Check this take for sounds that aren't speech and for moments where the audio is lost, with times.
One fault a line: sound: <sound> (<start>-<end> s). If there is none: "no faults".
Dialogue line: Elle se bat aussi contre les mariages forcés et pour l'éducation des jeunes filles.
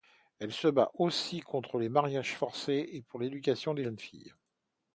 no faults